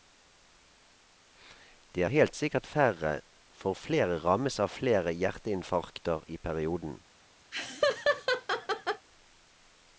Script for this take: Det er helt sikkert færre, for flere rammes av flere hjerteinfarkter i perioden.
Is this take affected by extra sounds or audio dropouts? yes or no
yes